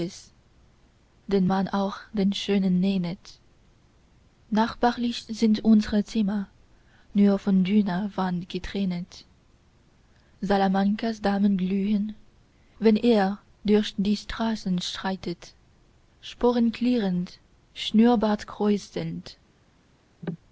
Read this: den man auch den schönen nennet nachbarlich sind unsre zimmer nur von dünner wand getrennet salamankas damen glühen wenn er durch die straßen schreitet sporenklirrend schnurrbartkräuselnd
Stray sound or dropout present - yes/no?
yes